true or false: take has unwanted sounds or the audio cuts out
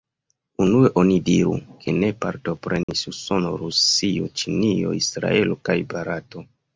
true